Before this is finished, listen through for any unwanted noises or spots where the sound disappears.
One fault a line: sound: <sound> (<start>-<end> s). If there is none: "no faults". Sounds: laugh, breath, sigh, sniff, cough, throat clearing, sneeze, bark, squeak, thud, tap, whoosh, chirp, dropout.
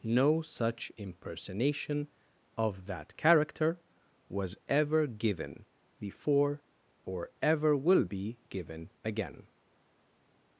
no faults